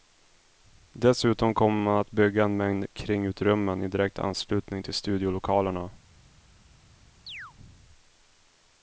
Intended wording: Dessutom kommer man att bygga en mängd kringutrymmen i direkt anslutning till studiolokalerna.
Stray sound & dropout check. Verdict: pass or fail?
fail